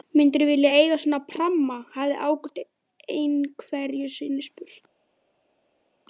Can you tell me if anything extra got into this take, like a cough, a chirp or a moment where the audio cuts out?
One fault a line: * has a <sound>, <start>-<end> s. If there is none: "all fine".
all fine